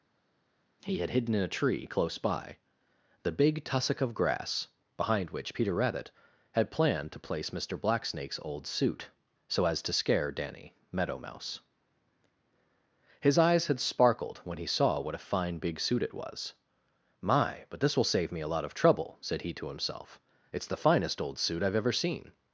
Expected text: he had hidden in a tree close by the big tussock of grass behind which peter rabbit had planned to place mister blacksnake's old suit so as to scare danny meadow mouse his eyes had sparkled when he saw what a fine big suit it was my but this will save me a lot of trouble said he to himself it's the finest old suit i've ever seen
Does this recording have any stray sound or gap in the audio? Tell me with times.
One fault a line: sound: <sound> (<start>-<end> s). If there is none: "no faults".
no faults